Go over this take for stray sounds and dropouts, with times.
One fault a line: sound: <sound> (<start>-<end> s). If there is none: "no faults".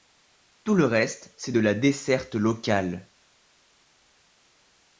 no faults